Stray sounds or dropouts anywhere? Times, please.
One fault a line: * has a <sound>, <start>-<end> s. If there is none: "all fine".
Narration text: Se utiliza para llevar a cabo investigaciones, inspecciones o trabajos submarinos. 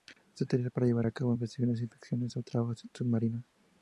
all fine